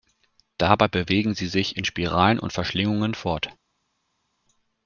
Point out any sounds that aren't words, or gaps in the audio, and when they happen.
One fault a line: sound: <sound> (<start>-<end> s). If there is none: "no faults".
no faults